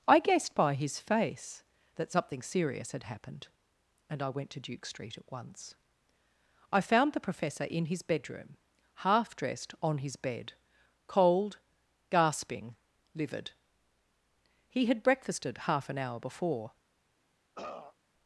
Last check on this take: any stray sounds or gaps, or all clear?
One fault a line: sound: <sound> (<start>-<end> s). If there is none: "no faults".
sound: throat clearing (17.6-18.0 s)